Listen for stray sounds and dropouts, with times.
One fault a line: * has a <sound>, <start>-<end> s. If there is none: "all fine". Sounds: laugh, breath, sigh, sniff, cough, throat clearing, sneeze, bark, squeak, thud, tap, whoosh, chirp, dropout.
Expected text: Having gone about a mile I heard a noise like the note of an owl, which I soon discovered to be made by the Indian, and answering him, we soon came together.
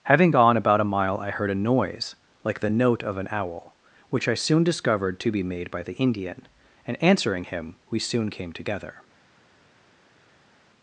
all fine